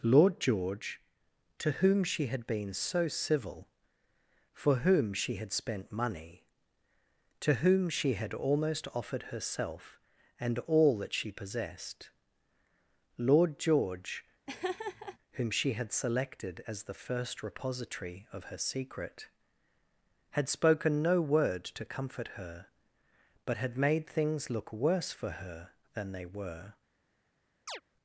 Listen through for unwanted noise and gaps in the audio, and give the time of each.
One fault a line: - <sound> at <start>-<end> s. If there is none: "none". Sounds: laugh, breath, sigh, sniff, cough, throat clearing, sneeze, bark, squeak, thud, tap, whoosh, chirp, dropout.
- laugh at 14.5-15.2 s
- chirp at 27.7-27.8 s